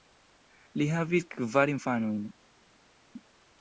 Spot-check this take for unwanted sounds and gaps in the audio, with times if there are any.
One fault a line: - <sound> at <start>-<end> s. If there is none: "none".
none